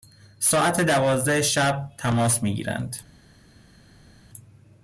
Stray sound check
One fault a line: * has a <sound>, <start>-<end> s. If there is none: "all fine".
all fine